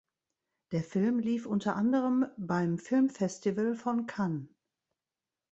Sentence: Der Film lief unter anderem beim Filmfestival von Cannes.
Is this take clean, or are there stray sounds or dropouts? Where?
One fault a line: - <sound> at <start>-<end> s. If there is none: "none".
none